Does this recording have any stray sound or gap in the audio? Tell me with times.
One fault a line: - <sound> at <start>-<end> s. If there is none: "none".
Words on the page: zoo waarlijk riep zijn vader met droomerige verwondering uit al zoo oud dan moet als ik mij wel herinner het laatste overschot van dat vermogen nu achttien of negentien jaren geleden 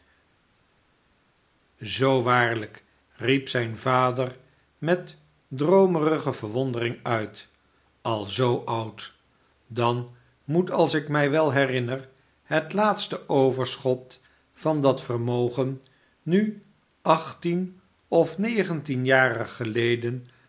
none